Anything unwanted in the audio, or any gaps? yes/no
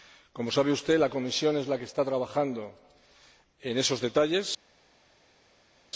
no